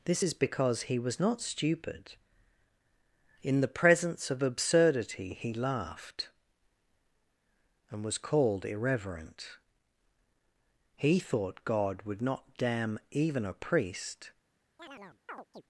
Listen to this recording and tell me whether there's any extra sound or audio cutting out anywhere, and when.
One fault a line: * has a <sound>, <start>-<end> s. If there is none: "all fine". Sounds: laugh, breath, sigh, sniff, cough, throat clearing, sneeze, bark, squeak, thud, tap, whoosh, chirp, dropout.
* has a chirp, 14.8-15.6 s